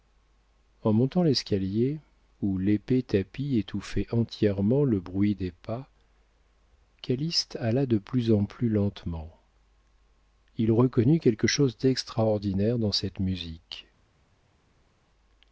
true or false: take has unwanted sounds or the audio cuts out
false